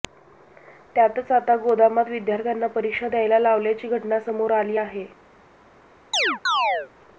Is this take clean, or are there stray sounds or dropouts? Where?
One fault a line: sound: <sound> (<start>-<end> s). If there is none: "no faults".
sound: chirp (6.1-6.9 s)